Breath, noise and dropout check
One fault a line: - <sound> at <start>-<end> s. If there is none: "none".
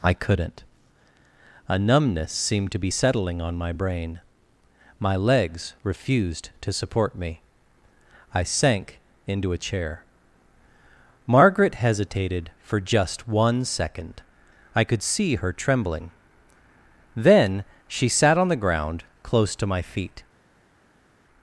none